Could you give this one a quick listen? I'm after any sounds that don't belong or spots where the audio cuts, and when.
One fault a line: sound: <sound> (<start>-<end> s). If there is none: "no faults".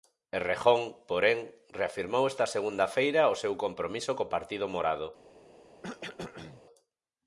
sound: cough (5.8-6.6 s)